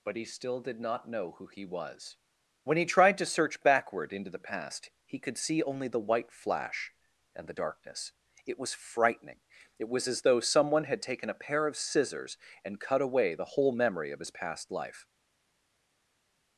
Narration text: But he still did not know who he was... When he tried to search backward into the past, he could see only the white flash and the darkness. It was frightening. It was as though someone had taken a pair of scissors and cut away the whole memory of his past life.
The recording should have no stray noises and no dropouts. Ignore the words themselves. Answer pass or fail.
pass